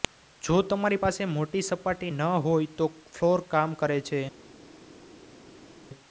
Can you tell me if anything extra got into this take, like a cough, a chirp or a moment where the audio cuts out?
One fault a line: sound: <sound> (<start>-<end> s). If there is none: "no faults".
no faults